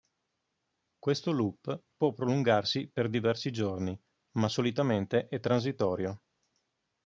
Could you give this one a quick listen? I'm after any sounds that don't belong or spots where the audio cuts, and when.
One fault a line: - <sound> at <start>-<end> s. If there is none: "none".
none